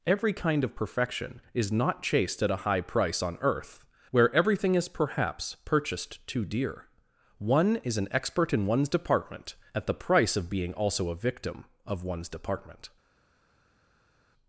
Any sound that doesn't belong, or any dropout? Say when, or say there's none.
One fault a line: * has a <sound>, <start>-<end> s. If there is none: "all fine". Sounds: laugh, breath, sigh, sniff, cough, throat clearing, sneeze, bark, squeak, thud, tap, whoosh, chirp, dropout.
all fine